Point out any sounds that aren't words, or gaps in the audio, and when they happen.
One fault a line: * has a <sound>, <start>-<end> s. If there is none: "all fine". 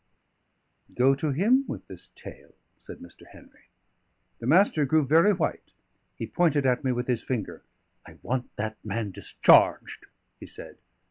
all fine